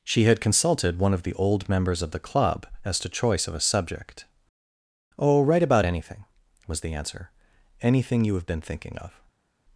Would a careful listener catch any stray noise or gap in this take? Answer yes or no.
no